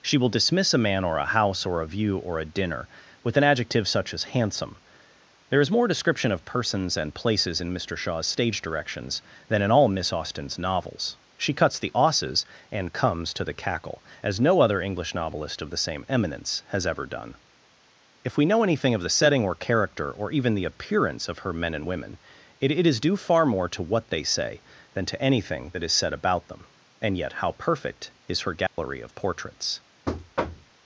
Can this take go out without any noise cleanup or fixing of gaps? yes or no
no